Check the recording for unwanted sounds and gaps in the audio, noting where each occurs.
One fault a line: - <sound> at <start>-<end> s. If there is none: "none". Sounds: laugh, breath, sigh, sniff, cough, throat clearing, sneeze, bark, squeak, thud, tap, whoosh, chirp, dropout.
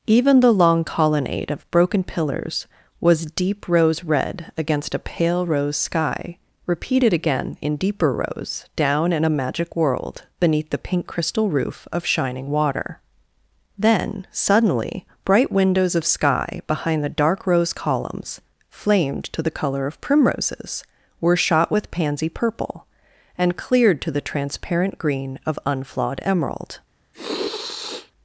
- sniff at 27.1-28.1 s